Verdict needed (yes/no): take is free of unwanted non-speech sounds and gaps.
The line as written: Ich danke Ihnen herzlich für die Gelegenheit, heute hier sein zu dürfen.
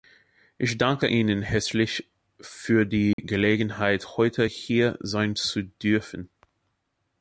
no